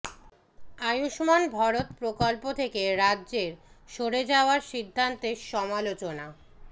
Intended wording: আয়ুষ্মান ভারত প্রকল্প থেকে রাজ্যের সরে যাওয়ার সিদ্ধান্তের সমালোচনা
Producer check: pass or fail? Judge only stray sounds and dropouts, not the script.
pass